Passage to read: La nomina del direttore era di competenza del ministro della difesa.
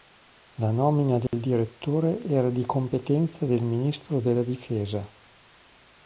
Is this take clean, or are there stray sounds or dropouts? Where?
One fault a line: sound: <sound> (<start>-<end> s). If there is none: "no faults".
sound: dropout (1.3-1.3 s)